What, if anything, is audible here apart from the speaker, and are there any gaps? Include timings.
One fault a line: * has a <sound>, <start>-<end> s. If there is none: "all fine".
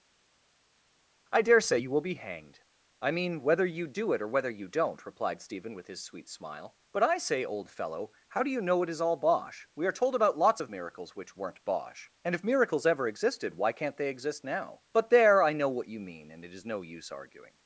all fine